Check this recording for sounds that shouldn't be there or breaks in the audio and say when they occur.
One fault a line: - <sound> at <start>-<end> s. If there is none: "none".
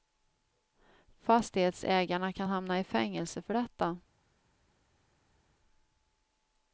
none